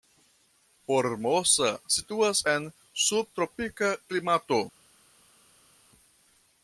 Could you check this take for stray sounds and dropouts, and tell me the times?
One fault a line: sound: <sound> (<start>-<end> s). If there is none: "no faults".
no faults